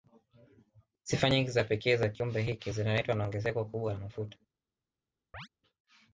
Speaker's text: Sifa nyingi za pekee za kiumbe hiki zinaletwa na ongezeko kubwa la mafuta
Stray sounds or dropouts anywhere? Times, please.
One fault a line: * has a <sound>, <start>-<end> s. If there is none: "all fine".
* has a chirp, 5.3-5.5 s